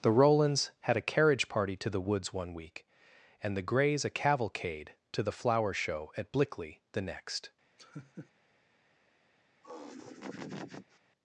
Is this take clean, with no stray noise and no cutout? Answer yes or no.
no